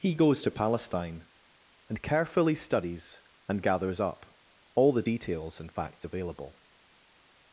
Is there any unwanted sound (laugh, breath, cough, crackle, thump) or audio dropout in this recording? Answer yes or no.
no